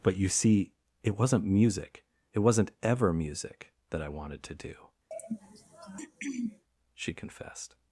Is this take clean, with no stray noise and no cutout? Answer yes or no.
no